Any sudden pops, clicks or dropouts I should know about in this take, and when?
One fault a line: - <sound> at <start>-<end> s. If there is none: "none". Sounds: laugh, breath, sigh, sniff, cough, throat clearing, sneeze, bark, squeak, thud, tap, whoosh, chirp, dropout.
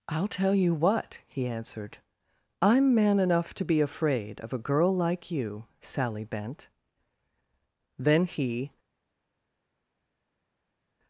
none